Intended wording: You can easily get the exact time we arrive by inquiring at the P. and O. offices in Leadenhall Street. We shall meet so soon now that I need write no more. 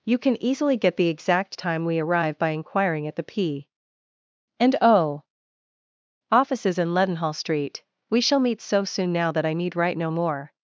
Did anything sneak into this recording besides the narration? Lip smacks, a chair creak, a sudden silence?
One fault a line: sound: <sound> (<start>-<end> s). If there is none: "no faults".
no faults